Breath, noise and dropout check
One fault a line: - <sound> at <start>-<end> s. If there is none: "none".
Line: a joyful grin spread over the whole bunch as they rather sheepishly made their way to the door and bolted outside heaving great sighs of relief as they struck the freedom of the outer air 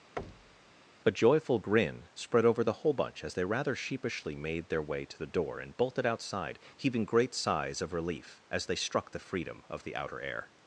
- thud at 0.2-0.8 s